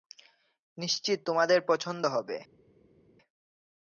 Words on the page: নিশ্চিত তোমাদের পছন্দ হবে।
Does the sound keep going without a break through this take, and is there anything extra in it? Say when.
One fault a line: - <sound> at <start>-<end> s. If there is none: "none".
none